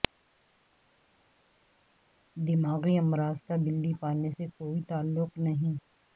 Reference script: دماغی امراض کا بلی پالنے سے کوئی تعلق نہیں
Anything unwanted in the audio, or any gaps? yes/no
no